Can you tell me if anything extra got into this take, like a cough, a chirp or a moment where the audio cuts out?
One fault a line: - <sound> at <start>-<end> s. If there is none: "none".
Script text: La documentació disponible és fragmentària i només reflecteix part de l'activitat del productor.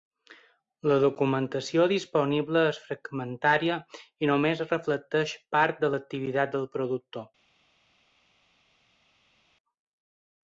none